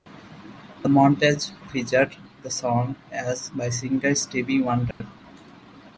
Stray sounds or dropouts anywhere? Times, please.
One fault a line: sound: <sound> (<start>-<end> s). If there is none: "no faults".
sound: dropout (4.9-5.0 s)